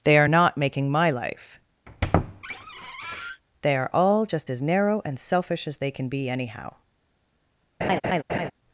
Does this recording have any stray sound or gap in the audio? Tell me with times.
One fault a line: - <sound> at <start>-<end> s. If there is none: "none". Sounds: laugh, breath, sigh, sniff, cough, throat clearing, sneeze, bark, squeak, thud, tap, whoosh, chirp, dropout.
- squeak at 1.9-3.4 s
- laugh at 7.8-8.5 s